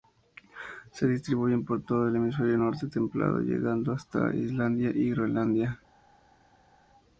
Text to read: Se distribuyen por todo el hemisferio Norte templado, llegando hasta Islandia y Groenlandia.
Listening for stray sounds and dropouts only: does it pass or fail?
pass